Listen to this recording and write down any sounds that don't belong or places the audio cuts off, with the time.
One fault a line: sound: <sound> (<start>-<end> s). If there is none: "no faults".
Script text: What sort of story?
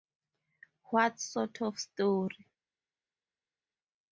no faults